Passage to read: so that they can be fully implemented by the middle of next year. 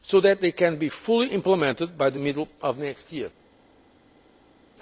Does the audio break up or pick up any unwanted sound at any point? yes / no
no